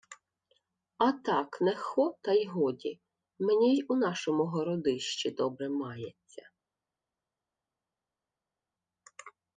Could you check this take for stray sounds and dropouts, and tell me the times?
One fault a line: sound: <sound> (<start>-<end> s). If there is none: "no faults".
no faults